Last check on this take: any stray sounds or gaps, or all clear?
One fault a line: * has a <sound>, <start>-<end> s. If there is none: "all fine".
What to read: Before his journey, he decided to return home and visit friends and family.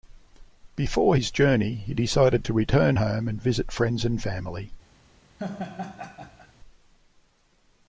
* has a laugh, 5.4-6.5 s